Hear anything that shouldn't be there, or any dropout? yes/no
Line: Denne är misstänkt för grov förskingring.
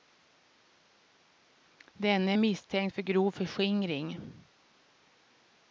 no